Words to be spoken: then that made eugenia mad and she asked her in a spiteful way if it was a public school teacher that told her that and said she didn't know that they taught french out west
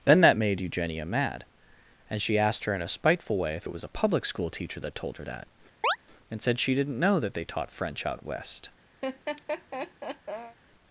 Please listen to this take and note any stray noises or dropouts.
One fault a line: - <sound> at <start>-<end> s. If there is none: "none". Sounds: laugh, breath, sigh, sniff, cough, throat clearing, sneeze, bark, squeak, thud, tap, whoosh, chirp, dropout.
- chirp at 5.8-6.0 s
- laugh at 9.0-10.6 s